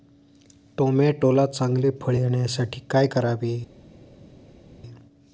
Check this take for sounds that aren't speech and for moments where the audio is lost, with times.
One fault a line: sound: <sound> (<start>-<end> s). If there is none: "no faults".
no faults